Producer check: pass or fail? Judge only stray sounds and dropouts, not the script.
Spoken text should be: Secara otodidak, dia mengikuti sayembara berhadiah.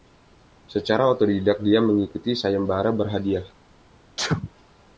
fail